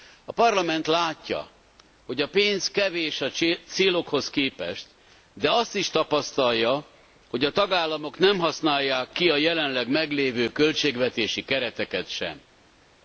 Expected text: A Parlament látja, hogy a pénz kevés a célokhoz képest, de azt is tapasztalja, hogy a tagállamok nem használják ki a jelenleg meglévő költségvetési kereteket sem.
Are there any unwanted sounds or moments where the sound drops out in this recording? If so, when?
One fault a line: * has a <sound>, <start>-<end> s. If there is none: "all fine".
all fine